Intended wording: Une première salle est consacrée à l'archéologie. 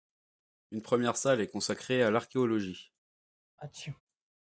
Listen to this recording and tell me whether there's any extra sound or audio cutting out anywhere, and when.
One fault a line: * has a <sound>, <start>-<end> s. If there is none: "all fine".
* has a sneeze, 3.6-4.0 s